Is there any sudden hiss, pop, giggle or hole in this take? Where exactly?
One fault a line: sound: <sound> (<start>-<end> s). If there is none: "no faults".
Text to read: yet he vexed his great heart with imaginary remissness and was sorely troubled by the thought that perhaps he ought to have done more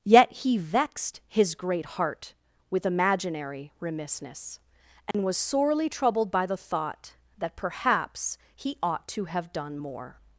sound: dropout (5.1-5.1 s)